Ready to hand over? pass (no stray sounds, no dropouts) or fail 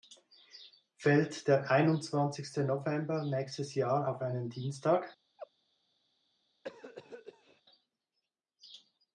fail